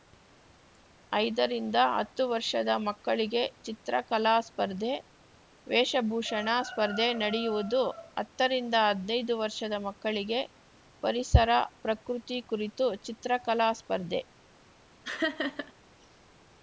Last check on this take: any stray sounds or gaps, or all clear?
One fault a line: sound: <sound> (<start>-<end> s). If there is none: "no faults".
sound: laugh (15.0-15.7 s)